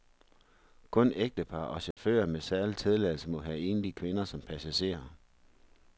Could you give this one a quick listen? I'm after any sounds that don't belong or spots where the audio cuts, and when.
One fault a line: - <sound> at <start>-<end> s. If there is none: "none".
- dropout at 1.9-2.0 s